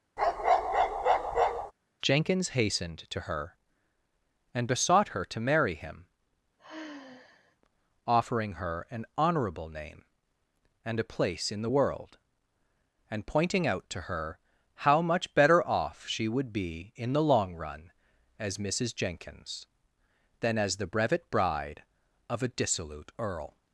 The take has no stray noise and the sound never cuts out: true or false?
false